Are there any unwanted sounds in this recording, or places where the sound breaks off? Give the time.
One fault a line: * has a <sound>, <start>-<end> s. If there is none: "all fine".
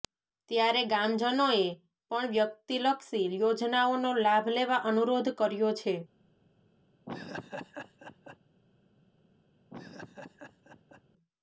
* has a laugh, 7.1-8.4 s
* has a laugh, 9.7-11.0 s